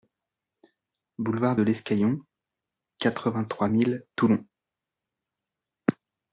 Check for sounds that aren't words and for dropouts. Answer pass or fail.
pass